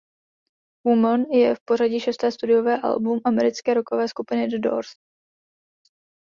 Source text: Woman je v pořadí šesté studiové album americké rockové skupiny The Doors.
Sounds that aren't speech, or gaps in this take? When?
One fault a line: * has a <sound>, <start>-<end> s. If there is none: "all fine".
all fine